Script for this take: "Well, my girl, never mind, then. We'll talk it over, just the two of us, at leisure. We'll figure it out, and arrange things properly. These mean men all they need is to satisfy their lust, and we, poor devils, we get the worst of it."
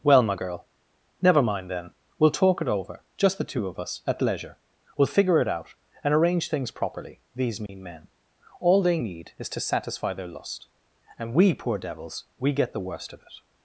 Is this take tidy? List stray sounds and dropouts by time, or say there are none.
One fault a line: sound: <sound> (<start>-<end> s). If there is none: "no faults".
sound: dropout (7.7-7.7 s)